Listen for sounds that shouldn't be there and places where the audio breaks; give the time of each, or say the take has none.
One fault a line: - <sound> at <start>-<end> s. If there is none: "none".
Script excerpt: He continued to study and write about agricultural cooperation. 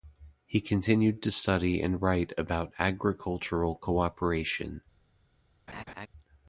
- laugh at 5.7-6.1 s